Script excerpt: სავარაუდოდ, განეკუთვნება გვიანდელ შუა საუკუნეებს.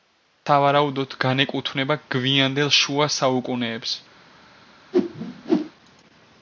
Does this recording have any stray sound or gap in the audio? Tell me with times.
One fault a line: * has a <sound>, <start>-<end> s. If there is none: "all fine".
* has a whoosh, 4.9-5.7 s